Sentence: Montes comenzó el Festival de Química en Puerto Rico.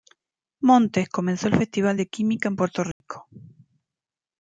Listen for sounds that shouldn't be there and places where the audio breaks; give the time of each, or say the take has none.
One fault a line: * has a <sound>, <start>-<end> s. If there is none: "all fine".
* has a dropout, 2.9-3.0 s